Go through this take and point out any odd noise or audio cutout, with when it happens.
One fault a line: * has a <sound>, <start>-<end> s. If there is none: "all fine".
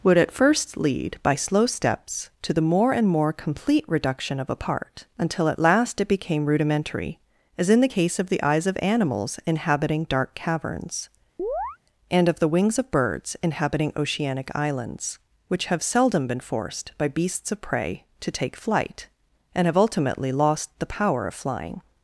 * has a chirp, 11.4-11.8 s